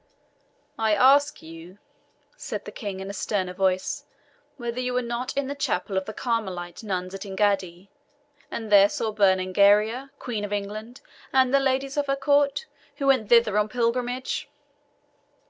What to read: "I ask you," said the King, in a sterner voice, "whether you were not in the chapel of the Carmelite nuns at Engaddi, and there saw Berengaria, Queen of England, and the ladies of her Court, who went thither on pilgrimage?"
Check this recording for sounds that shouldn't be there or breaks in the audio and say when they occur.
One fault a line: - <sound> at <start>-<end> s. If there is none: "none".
none